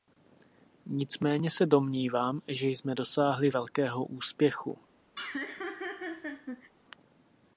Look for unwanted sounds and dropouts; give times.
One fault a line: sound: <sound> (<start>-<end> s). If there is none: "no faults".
sound: laugh (5.2-6.7 s)